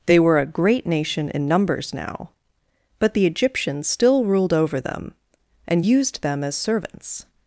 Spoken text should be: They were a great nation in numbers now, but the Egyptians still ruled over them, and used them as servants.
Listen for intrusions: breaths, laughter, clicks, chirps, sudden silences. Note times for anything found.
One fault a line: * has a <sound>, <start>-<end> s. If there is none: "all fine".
all fine